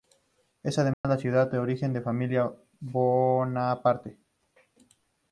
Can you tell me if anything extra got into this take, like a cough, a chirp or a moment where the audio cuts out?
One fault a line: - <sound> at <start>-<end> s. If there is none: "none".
- dropout at 0.9-1.0 s